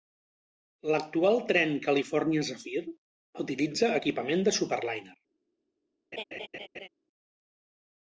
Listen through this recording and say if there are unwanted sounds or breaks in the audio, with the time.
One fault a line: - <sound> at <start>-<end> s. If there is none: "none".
- laugh at 6.1-6.9 s